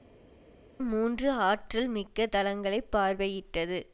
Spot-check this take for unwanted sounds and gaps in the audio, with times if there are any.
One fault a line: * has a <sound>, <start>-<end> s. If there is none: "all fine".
all fine